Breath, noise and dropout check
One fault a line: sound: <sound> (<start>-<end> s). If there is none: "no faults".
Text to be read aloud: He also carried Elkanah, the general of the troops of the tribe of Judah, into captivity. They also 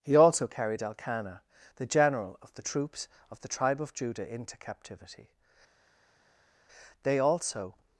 no faults